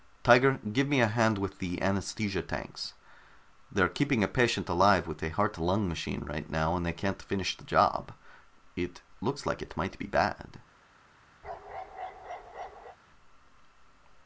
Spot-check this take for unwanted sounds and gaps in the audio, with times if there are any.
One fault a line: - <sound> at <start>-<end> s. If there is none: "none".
- bark at 11.4-13.0 s